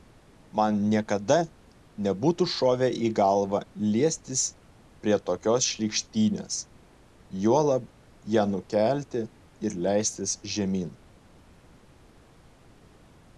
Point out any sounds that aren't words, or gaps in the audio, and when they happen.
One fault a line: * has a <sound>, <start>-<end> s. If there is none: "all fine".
all fine